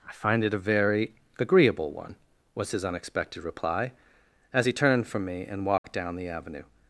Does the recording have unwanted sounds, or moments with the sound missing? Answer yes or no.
yes